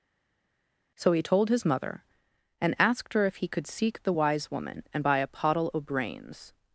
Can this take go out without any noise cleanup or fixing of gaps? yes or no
yes